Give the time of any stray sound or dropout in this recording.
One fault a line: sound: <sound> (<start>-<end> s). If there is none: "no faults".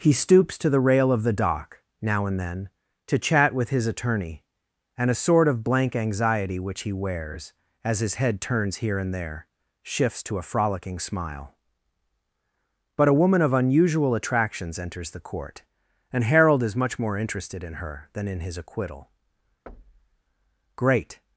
sound: thud (19.7-20.2 s)